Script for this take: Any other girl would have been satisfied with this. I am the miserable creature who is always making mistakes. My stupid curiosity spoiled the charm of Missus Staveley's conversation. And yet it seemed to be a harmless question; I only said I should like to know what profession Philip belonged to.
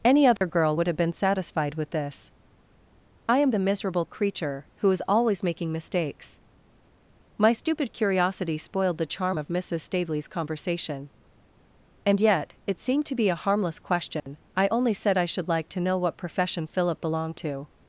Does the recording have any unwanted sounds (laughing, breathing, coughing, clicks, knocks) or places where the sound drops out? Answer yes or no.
yes